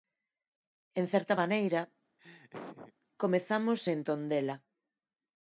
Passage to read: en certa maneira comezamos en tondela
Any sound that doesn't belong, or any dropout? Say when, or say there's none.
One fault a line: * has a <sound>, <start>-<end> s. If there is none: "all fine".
* has a laugh, 2.2-2.9 s